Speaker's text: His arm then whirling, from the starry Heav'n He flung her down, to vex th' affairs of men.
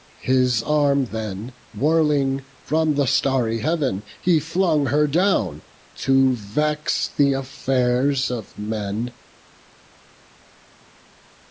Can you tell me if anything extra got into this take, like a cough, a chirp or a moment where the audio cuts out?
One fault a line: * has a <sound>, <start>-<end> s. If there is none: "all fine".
all fine